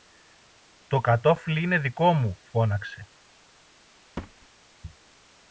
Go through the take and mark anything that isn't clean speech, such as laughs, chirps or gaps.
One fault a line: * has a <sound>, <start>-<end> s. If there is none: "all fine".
* has a thud, 4.2-4.5 s